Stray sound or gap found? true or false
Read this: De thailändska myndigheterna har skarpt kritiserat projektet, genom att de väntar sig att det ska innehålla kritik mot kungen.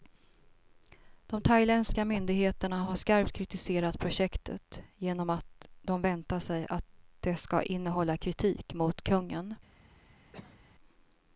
true